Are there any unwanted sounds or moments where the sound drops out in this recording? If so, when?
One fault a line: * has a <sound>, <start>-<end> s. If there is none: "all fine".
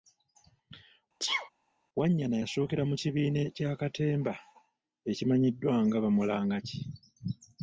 * has a sneeze, 1.2-1.5 s